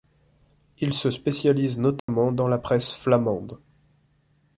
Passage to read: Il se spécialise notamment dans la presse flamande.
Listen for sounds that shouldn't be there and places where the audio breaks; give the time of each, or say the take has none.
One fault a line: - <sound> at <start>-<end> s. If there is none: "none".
- dropout at 2.0-2.1 s